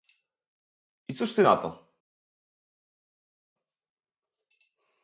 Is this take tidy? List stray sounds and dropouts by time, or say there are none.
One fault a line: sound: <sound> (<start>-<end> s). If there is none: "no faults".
no faults